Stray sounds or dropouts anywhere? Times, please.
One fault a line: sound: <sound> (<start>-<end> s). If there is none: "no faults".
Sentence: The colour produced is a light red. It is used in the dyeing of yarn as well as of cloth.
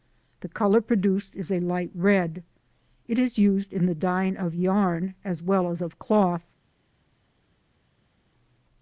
no faults